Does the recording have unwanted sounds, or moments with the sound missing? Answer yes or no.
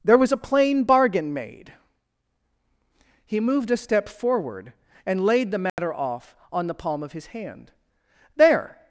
yes